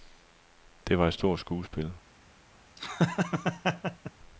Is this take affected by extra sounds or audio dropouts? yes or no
yes